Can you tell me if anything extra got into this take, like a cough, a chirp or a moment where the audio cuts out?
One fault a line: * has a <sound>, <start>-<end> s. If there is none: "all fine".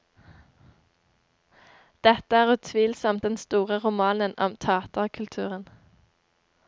all fine